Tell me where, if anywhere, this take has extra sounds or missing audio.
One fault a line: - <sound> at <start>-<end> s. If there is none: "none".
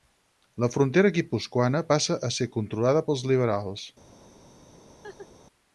- laugh at 5.0-5.3 s